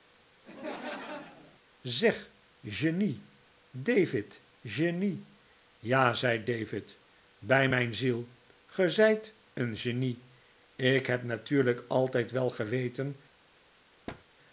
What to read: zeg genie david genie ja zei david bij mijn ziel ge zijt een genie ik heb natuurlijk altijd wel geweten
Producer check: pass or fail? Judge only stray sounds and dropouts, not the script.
fail